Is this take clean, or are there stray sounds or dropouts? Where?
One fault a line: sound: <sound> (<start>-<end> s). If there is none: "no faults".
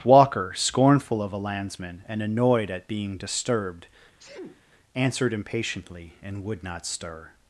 sound: sneeze (4.2-4.6 s)